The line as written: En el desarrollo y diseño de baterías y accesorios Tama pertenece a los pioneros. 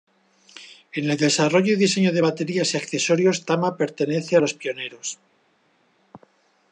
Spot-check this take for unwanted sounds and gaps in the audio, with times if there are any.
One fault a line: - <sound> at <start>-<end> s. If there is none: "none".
none